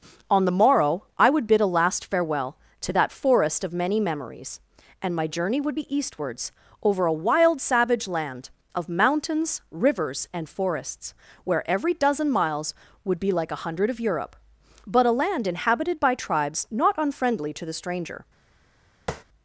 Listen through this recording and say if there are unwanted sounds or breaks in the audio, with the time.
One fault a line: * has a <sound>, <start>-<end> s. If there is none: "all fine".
* has a tap, 19.1-19.2 s